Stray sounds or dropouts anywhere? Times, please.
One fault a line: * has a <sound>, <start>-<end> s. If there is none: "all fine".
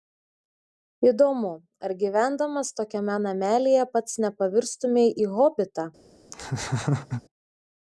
* has a laugh, 6.3-7.2 s